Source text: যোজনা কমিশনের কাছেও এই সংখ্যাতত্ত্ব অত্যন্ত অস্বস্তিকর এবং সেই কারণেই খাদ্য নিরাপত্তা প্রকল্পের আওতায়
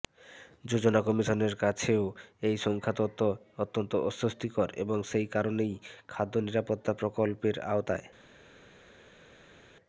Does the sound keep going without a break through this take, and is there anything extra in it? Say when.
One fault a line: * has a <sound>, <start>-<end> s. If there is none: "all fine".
all fine